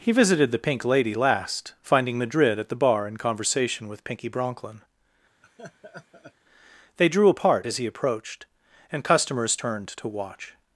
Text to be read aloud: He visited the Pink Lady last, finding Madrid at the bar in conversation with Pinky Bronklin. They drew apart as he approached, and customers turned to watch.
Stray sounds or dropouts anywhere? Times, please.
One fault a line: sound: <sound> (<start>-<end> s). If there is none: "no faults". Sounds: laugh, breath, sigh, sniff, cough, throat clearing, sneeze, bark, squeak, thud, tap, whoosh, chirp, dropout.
sound: laugh (5.4-6.3 s)